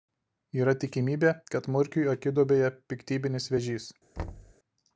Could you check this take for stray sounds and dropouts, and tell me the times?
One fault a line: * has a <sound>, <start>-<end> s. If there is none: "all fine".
* has a thud, 4.2-4.5 s